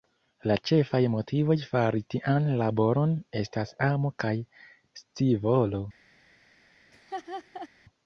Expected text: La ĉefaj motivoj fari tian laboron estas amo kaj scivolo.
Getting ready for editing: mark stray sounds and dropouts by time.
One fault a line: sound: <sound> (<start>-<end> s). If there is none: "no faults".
sound: laugh (6.9-7.7 s)